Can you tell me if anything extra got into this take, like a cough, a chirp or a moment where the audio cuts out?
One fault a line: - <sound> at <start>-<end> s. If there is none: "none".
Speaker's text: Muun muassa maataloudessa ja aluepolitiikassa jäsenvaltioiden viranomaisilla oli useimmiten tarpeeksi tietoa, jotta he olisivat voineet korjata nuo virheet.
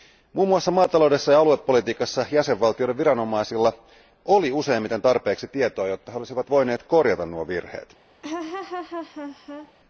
- laugh at 8.2-9.7 s